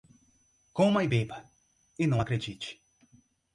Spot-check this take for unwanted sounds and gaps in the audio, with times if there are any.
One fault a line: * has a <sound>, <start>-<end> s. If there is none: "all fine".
all fine